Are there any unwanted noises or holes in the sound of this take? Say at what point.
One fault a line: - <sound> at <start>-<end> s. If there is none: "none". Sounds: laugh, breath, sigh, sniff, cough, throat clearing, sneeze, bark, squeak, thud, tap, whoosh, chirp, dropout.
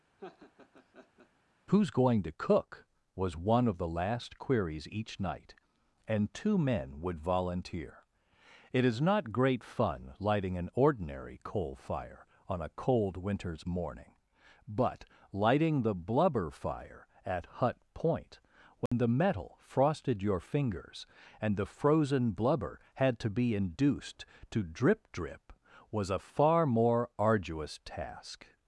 - laugh at 0.2-1.3 s
- dropout at 18.9-18.9 s